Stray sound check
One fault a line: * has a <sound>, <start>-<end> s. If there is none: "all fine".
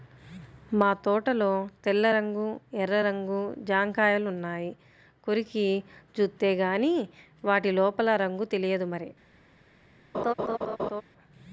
* has a laugh, 10.1-11.0 s